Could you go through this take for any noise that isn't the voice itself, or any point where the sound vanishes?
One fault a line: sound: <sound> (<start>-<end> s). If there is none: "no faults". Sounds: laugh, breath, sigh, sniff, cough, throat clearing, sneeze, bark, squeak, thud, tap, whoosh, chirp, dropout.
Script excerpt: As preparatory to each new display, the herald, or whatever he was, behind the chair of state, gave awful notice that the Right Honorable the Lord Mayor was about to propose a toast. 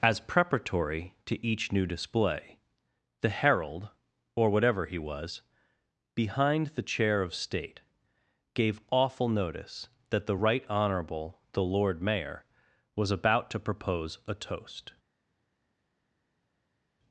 no faults